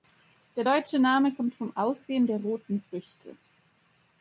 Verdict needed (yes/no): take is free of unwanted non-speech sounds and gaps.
yes